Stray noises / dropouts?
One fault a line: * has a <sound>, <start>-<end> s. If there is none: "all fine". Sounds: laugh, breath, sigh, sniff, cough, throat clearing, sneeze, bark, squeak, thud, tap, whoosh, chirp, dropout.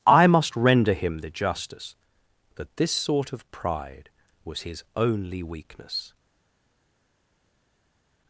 all fine